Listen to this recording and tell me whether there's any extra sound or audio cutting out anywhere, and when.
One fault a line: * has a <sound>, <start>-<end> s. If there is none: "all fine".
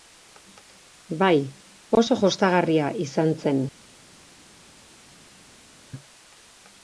all fine